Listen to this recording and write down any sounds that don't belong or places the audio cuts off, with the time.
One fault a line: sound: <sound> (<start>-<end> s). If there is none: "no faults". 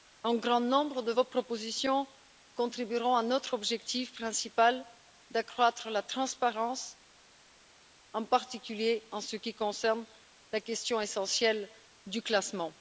no faults